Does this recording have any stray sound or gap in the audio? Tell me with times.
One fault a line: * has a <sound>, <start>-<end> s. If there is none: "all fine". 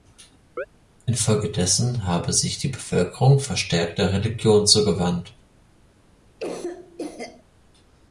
* has a chirp, 0.6-0.7 s
* has a cough, 6.4-7.4 s